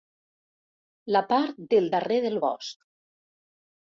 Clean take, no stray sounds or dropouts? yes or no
yes